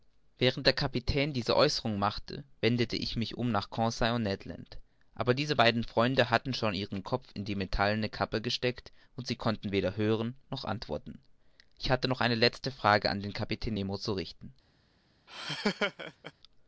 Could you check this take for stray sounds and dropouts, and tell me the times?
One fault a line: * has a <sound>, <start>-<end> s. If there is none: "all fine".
* has a laugh, 15.3-16.3 s